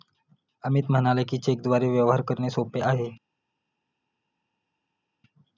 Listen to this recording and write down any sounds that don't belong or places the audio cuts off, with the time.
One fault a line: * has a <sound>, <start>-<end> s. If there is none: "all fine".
all fine